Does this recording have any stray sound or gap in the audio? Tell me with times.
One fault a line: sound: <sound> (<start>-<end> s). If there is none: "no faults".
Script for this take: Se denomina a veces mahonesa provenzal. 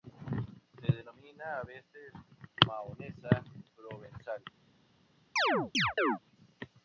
sound: chirp (5.4-6.2 s)